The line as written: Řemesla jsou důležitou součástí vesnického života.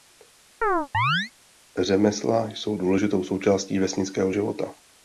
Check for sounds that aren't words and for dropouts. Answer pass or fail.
fail